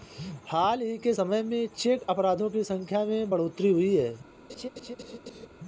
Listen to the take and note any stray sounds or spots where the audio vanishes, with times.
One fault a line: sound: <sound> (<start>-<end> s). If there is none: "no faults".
sound: laugh (4.5-5.5 s)